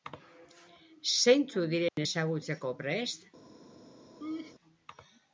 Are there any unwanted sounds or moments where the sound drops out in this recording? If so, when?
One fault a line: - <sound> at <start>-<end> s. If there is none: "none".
- dropout at 1.9-2.0 s
- laugh at 4.2-4.6 s